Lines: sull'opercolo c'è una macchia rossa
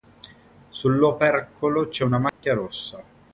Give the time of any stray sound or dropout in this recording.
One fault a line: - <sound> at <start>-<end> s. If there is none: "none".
- dropout at 2.3-2.4 s